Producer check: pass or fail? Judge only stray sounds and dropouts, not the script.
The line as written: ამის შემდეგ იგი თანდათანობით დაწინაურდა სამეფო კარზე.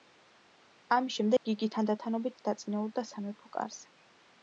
fail